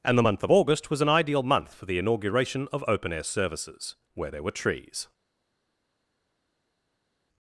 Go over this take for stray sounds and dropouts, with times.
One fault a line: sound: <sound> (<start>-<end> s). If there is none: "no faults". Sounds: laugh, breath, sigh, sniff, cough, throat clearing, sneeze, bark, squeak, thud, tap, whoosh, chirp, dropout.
no faults